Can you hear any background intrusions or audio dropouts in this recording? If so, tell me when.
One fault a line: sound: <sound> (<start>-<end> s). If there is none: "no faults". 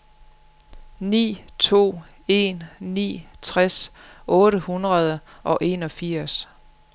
no faults